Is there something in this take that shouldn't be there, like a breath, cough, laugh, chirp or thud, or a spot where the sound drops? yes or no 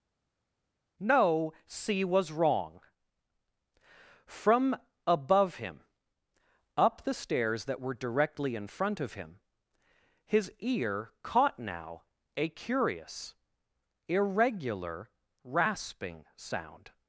no